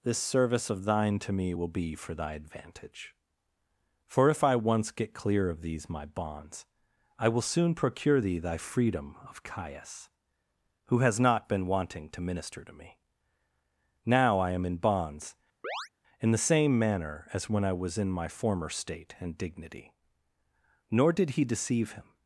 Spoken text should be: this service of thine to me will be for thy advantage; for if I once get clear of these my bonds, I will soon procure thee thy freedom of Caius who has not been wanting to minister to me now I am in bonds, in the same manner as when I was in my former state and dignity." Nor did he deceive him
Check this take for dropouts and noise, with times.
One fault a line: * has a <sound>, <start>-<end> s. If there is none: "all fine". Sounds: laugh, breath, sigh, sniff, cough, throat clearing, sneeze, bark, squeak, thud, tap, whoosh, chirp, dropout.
* has a chirp, 15.6-15.9 s